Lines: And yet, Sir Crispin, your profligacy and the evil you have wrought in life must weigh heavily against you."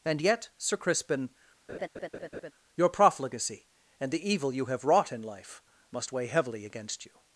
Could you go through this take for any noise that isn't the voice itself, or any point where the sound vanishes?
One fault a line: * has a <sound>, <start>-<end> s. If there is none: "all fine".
* has a laugh, 1.7-2.5 s